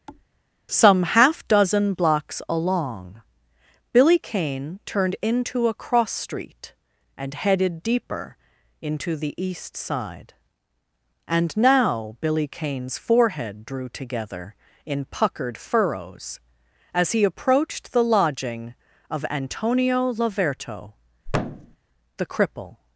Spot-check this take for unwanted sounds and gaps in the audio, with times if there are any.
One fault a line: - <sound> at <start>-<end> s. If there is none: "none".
- thud at 0.1-0.3 s
- thud at 21.3-21.8 s